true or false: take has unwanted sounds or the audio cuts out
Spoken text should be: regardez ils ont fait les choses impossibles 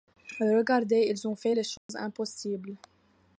true